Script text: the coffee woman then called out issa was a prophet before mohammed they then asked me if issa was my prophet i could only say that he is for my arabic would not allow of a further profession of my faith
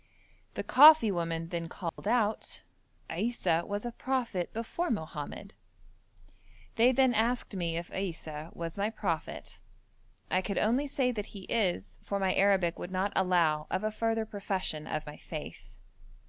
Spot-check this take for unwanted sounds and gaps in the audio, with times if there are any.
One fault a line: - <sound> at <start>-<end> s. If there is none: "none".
- dropout at 1.9-2.0 s